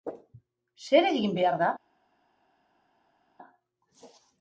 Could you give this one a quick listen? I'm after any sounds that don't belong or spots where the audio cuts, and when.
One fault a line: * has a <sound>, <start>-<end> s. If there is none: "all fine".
all fine